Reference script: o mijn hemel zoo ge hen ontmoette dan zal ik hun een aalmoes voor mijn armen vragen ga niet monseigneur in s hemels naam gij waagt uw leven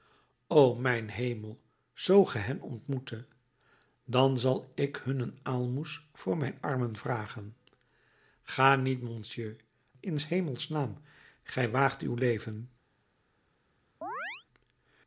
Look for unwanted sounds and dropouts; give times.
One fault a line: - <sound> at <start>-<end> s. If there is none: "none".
- chirp at 14.0-14.5 s